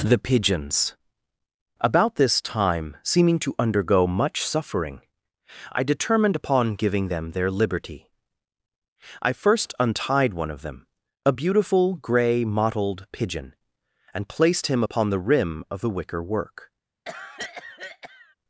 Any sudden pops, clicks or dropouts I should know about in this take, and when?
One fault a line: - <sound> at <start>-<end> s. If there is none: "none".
- cough at 17.0-18.3 s